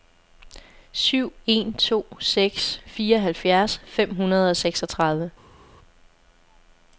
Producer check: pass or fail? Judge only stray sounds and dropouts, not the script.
pass